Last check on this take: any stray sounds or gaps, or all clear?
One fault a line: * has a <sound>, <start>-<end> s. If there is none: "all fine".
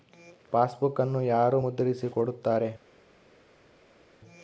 all fine